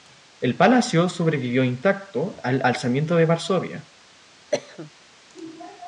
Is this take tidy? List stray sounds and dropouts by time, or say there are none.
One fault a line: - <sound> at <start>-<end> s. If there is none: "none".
- cough at 4.5-4.9 s